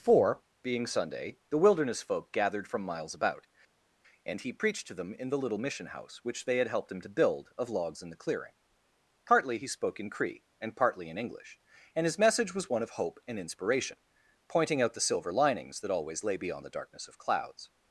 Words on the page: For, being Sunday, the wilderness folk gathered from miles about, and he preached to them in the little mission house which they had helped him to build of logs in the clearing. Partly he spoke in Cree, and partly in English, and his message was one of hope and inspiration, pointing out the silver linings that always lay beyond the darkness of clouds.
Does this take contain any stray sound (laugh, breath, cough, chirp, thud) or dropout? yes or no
no